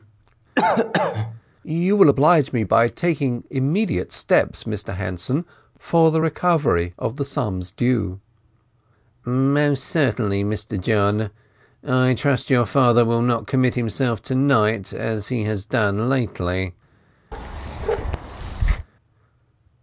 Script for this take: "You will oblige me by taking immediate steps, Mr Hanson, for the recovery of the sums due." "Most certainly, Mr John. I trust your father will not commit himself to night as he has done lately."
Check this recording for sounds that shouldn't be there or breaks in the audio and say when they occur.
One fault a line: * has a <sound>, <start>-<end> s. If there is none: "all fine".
* has a cough, 0.6-1.4 s
* has a bark, 17.3-18.9 s